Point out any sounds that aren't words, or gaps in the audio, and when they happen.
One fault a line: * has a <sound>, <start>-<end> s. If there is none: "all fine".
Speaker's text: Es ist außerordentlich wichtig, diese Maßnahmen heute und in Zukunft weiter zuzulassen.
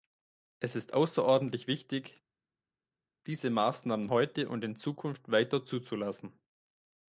all fine